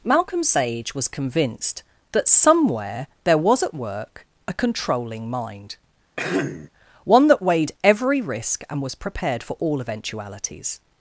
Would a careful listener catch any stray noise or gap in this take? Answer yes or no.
yes